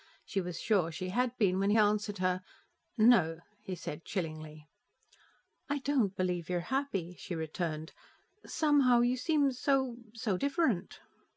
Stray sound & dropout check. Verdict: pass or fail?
pass